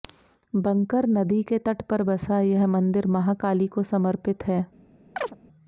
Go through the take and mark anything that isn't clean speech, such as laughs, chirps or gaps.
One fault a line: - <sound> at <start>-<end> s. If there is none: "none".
- chirp at 5.2-5.4 s